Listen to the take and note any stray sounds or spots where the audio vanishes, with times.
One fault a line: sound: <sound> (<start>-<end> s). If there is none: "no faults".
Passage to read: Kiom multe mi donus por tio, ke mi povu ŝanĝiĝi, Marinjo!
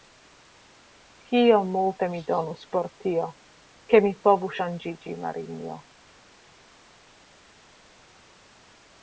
no faults